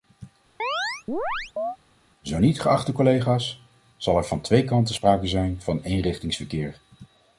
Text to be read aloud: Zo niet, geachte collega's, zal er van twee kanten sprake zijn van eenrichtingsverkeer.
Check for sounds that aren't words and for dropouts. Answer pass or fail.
fail